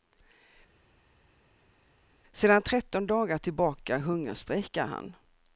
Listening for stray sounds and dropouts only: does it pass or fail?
pass